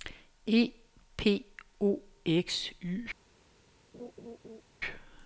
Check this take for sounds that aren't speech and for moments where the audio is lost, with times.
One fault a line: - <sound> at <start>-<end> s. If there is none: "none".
- laugh at 3.9-4.6 s